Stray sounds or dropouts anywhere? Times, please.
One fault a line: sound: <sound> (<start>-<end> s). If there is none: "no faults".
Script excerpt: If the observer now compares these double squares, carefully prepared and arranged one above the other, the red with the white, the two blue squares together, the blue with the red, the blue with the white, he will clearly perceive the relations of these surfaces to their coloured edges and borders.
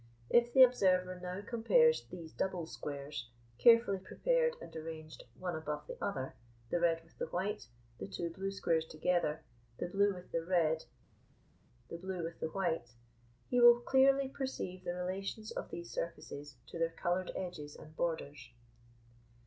no faults